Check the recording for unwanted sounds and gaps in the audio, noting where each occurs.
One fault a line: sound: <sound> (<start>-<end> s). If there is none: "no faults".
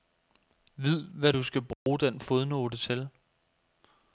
sound: dropout (1.7-1.9 s)